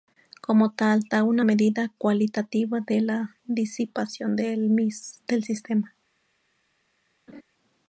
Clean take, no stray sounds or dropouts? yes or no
no